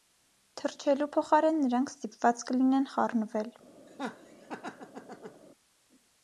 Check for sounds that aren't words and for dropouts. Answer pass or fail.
fail